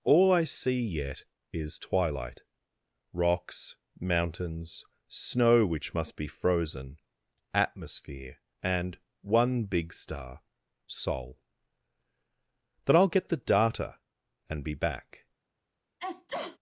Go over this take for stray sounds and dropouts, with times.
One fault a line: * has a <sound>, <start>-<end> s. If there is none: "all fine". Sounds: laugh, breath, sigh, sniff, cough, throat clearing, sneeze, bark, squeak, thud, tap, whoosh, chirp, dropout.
* has a sneeze, 16.0-16.6 s